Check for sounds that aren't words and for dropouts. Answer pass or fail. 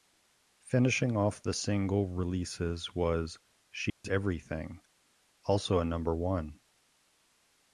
fail